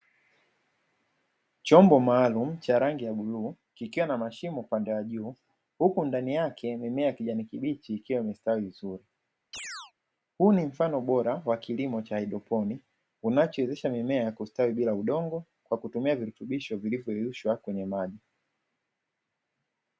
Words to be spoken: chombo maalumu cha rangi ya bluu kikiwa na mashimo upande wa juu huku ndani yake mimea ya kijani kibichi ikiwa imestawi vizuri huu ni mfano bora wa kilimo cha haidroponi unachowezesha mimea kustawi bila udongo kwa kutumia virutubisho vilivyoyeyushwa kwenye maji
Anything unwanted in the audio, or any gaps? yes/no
yes